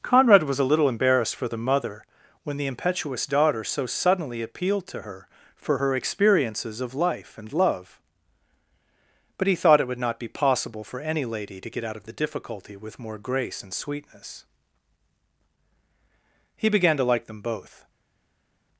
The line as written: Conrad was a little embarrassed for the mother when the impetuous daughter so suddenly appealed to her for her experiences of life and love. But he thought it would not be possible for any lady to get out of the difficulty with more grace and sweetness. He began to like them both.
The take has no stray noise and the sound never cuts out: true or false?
true